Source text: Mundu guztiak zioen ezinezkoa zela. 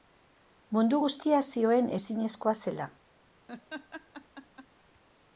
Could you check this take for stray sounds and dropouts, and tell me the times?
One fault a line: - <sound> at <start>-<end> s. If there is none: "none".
- laugh at 3.5-4.7 s